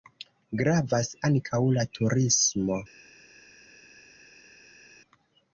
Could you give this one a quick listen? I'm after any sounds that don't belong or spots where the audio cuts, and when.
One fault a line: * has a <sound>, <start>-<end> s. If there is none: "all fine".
all fine